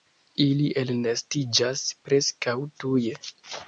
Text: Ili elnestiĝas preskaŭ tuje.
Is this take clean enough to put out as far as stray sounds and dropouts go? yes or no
yes